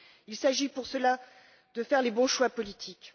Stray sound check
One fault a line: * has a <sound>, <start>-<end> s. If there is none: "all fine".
all fine